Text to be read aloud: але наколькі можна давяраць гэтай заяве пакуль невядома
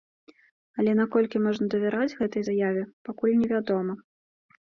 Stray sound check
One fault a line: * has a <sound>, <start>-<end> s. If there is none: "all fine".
all fine